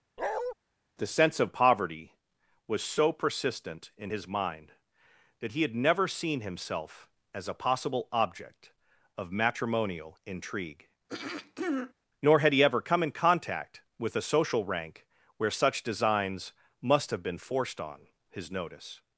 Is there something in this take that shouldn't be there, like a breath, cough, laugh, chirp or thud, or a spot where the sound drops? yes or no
yes